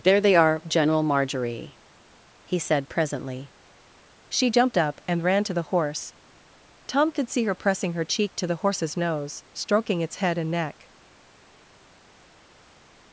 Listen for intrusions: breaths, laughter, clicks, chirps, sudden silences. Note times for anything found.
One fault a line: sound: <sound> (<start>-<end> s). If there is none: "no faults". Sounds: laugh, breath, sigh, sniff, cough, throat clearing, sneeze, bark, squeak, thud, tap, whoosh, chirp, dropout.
no faults